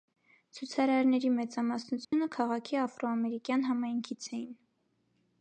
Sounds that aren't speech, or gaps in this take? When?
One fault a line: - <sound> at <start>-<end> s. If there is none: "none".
- dropout at 2.0-2.1 s